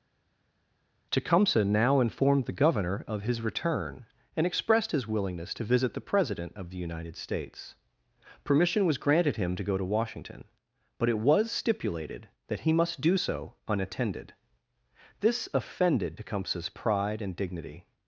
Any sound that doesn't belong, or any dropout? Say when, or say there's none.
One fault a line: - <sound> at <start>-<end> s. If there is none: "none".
none